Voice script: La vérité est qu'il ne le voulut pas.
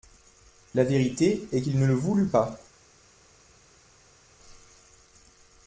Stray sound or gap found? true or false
false